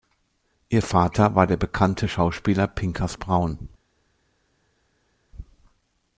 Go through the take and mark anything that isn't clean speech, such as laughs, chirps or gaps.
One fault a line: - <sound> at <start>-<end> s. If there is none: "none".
none